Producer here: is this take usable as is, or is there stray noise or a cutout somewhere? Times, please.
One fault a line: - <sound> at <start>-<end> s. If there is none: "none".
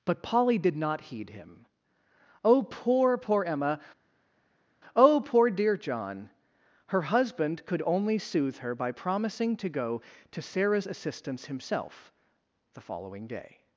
none